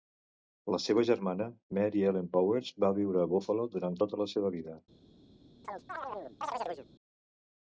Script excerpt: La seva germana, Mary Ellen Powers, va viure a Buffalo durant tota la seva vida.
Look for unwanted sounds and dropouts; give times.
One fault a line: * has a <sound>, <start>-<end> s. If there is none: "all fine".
* has a chirp, 5.6-6.9 s